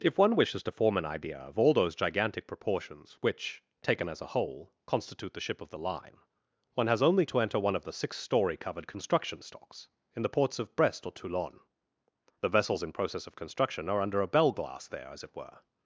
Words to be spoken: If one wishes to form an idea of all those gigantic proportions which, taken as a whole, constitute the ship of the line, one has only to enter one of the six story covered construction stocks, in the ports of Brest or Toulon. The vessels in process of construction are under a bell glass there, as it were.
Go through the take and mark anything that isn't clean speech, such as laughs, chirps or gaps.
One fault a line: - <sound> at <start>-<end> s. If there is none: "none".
none